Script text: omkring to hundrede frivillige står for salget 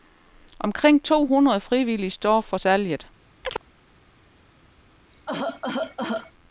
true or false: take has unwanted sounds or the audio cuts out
true